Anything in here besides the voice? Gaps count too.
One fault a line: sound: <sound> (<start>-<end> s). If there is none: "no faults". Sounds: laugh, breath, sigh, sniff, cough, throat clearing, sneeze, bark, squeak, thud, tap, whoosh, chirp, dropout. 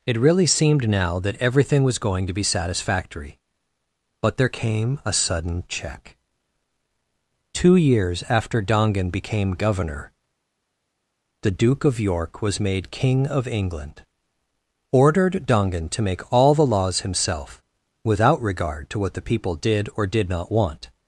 no faults